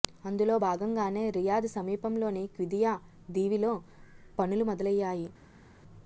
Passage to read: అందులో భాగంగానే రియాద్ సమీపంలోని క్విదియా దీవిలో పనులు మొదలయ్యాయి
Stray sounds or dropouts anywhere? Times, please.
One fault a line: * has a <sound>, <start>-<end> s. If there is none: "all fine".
all fine